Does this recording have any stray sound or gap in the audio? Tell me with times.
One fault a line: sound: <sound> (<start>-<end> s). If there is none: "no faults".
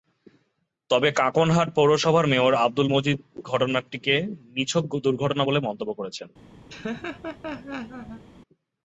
sound: laugh (6.7-8.2 s)